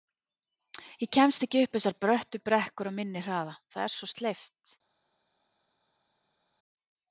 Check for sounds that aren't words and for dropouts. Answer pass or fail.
pass